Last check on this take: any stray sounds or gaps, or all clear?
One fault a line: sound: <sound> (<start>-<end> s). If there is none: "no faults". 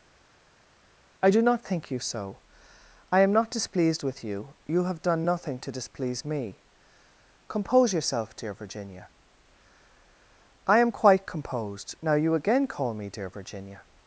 no faults